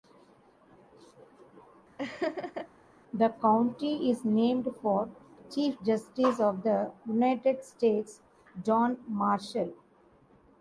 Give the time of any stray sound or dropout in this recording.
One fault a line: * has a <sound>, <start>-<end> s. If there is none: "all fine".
* has a laugh, 2.0-2.7 s